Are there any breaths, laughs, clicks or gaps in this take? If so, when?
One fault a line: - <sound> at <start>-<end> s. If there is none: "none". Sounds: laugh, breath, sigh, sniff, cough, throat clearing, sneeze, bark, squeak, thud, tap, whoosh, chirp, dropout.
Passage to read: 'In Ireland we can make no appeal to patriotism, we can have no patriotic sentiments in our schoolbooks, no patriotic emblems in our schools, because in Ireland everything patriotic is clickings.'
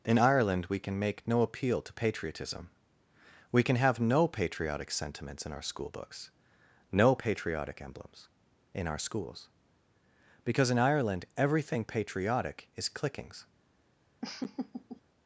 - laugh at 14.2-15.0 s